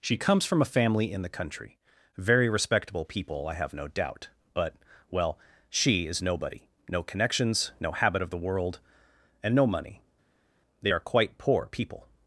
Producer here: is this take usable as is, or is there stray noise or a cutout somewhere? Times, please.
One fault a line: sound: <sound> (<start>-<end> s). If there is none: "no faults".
no faults